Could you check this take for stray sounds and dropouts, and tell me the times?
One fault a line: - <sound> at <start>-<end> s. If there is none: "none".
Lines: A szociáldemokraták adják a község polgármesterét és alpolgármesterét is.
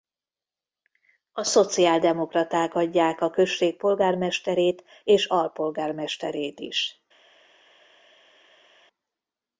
none